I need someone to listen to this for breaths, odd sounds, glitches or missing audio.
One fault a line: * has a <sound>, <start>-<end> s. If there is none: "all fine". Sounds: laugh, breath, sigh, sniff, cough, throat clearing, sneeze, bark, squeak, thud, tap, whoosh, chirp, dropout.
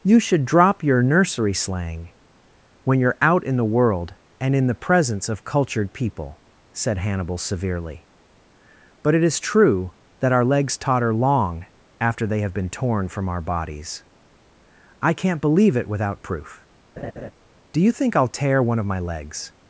* has a laugh, 17.0-17.3 s